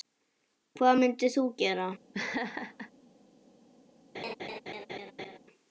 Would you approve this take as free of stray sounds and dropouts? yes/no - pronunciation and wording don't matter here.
no